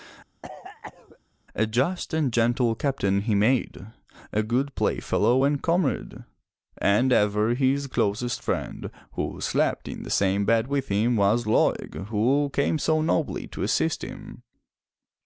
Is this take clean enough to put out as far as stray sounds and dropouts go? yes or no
no